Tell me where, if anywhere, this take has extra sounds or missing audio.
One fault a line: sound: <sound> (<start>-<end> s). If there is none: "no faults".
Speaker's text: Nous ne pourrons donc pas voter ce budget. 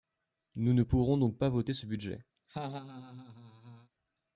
sound: laugh (2.4-3.9 s)